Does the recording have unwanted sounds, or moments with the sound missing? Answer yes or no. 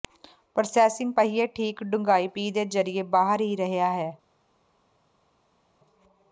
no